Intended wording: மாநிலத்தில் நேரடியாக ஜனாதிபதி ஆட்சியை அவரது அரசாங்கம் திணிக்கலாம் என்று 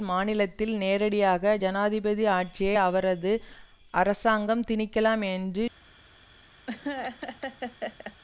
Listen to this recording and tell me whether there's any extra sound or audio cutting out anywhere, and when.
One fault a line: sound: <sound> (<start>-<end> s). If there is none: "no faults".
sound: laugh (6.7-8.2 s)